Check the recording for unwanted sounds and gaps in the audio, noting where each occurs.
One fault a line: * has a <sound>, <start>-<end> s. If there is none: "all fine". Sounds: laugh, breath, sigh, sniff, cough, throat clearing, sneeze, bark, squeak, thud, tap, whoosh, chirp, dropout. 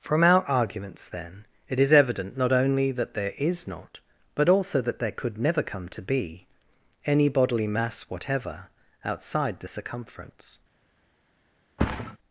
* has a thud, 11.8-12.2 s